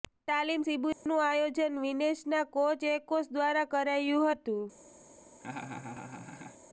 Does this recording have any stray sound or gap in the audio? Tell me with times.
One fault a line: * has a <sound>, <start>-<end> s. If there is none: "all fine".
* has a dropout, 0.9-1.1 s
* has a laugh, 5.4-6.6 s